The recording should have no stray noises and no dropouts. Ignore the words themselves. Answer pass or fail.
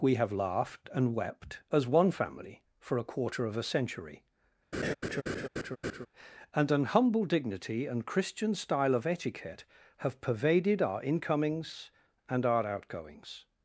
fail